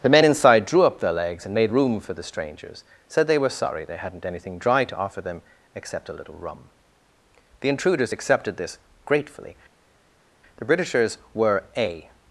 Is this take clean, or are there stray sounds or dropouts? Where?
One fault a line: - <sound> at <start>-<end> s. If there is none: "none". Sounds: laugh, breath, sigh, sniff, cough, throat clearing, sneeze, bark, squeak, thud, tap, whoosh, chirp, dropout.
none